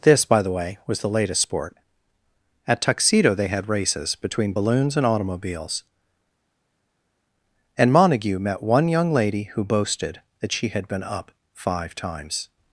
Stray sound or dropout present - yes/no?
no